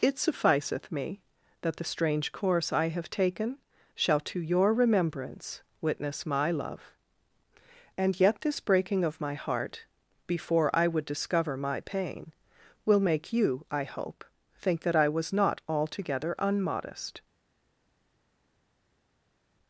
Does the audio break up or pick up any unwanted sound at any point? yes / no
no